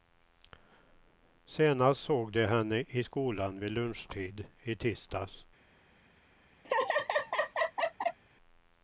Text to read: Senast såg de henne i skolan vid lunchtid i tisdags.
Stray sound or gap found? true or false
true